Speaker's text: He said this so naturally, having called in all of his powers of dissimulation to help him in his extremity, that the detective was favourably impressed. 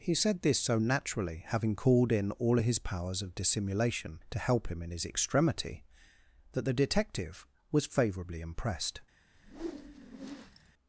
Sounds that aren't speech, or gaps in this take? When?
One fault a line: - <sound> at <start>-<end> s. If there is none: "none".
- whoosh at 9.3-10.7 s